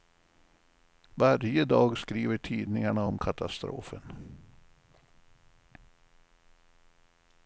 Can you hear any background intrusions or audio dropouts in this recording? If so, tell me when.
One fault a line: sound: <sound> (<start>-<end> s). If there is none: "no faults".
no faults